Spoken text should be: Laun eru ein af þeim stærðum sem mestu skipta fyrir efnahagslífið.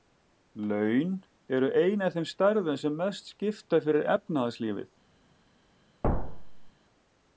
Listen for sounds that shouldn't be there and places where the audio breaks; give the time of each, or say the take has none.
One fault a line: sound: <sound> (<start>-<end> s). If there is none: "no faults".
sound: thud (6.0-6.7 s)